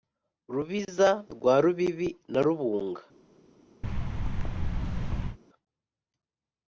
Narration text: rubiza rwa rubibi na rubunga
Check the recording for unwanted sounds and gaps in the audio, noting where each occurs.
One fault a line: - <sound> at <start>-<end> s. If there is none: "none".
- thud at 3.8-5.4 s